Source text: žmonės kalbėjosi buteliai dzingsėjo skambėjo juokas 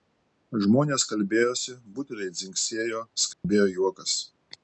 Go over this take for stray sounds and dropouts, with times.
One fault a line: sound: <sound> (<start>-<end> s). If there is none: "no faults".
sound: dropout (3.3-3.4 s)